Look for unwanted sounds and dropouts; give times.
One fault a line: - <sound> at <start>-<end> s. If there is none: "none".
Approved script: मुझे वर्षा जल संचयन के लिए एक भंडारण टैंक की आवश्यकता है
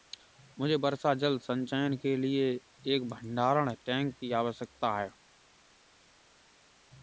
none